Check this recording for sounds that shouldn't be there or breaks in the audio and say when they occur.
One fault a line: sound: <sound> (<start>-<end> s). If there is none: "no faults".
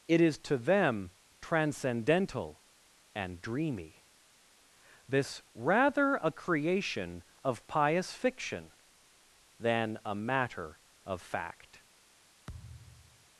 sound: thud (12.5-13.3 s)